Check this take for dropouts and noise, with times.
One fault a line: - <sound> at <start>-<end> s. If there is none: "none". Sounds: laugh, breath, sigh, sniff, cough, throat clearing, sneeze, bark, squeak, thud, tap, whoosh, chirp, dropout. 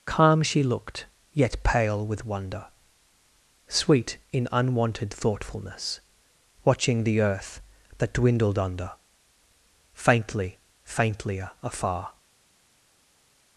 none